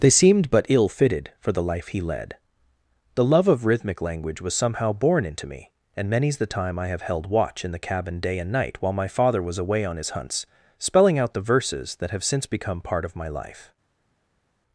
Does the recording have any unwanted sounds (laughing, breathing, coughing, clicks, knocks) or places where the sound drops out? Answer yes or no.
no